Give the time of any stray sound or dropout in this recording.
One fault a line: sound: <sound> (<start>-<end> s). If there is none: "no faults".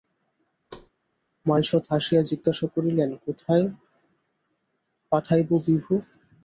sound: thud (0.7-0.9 s)